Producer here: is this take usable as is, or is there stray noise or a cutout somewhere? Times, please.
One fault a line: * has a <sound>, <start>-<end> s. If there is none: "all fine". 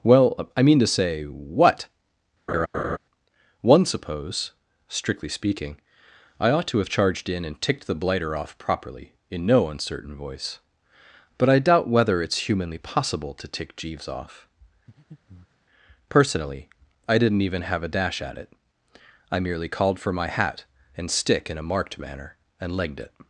* has a laugh, 2.5-3.0 s
* has a breath, 14.9-15.7 s